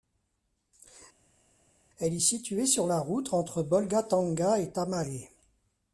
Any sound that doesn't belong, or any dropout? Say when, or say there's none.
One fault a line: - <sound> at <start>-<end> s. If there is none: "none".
none